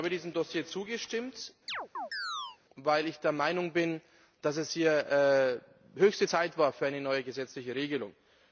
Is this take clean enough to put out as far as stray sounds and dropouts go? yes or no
no